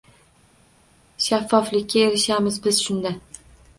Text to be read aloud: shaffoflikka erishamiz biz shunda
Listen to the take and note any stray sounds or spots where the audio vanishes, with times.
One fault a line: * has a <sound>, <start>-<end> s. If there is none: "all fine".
all fine